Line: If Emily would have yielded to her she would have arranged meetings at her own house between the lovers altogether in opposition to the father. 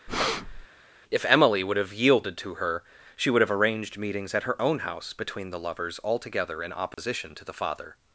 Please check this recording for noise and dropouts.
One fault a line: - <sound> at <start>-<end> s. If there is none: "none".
- breath at 0.1-0.7 s
- dropout at 6.9-7.0 s